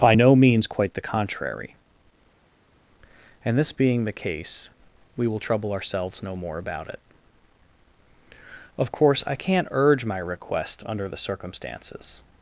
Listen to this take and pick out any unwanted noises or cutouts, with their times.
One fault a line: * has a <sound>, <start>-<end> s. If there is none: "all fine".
all fine